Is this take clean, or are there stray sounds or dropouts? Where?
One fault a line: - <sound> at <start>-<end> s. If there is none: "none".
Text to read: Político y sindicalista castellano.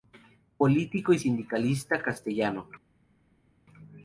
none